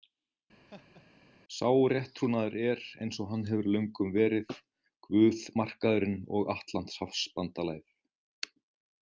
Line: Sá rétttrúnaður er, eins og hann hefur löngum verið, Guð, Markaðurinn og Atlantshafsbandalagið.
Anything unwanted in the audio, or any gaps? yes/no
yes